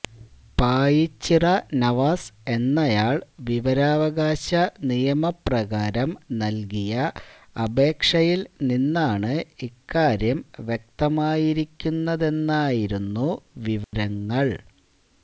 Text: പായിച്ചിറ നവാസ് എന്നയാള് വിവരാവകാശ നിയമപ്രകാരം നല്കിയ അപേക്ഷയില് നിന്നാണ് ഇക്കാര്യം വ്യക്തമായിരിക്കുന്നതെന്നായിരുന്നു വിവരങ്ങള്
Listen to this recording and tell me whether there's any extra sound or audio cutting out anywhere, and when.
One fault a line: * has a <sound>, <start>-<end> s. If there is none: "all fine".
* has a dropout, 13.8-13.9 s